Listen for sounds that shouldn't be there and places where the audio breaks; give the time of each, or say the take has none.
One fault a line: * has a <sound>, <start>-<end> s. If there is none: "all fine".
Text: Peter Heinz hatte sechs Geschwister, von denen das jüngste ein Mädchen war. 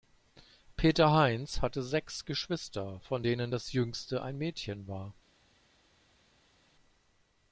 all fine